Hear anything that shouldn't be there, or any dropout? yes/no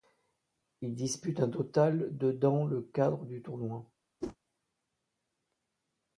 yes